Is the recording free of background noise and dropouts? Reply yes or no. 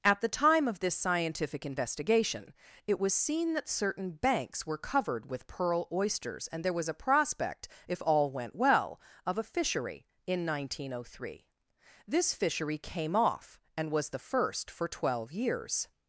yes